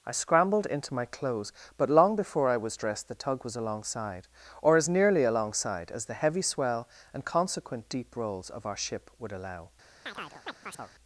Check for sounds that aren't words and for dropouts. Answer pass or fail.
fail